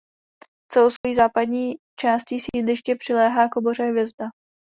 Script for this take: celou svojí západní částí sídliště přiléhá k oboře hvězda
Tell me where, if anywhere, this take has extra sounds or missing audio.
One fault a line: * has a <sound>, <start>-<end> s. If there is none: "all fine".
* has a dropout, 1.0-1.0 s